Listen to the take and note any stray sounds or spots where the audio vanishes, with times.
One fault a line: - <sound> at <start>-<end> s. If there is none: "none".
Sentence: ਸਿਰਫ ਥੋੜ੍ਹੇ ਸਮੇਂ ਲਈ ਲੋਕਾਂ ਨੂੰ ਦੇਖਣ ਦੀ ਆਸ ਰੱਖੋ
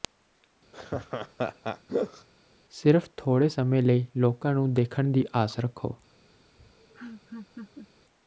- laugh at 0.7-2.3 s
- laugh at 6.6-7.9 s